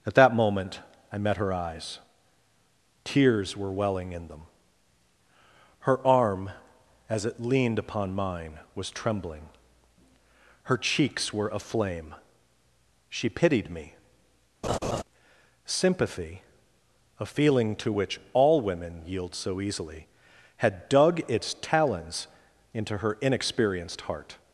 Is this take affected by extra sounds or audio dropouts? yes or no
yes